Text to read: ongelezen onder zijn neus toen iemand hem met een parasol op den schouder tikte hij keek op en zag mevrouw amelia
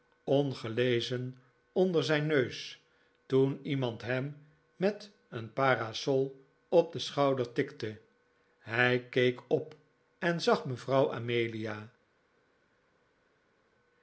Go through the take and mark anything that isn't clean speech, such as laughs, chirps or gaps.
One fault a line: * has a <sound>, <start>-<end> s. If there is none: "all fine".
all fine